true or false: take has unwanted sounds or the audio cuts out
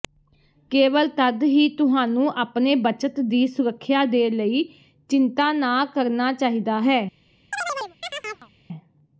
true